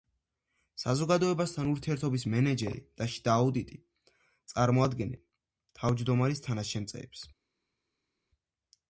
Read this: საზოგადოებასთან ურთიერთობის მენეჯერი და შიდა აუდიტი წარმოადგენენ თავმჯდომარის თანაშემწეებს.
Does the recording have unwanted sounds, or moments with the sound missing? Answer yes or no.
no